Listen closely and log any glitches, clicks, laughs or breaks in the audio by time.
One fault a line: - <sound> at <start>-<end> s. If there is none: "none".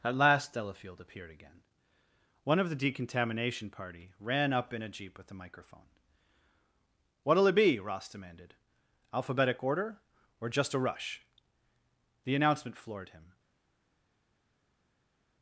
none